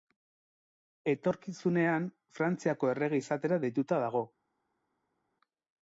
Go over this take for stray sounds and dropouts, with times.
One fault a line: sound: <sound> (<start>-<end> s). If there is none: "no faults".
no faults